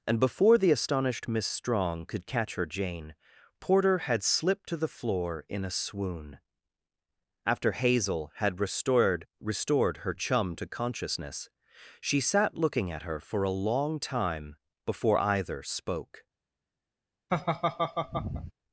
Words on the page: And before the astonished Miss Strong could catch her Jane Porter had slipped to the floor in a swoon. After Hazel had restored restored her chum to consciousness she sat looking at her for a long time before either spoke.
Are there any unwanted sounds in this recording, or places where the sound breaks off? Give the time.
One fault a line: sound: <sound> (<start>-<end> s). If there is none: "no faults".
sound: laugh (17.3-18.5 s)